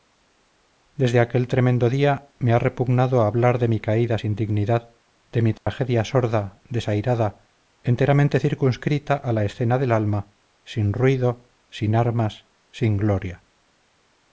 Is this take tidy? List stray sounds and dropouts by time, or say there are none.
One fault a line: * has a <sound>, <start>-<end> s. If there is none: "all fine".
* has a dropout, 5.6-5.7 s